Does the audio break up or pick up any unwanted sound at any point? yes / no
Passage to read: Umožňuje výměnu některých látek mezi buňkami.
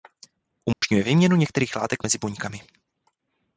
yes